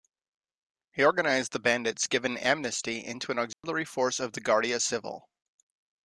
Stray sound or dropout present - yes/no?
yes